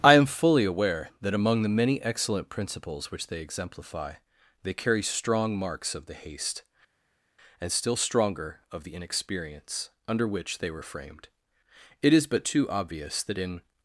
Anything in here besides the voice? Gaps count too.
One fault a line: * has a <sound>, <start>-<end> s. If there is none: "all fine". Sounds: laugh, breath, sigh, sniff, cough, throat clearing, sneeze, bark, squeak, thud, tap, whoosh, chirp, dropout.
all fine